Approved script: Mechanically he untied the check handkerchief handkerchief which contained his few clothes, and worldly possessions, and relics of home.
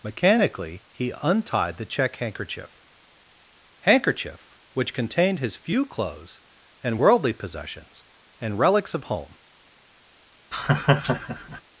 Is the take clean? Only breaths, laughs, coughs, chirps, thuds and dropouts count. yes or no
no